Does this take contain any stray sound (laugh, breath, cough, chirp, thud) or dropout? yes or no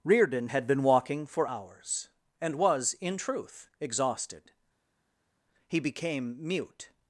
no